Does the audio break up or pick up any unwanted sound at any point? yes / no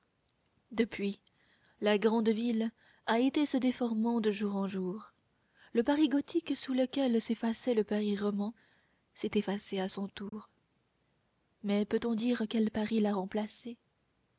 yes